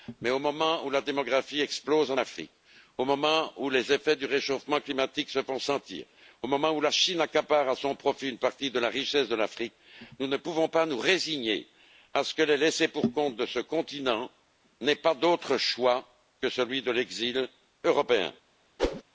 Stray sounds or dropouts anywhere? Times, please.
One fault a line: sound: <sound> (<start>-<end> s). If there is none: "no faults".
sound: whoosh (18.8-19.0 s)